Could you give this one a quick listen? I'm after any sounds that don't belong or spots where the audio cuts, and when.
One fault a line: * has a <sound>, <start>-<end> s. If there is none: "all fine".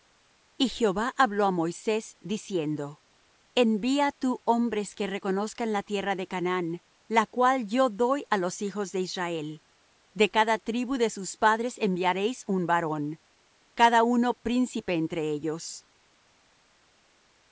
all fine